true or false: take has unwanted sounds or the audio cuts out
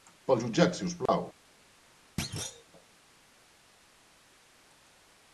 true